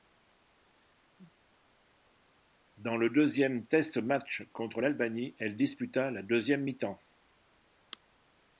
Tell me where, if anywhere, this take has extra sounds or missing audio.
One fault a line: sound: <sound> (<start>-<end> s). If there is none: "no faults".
no faults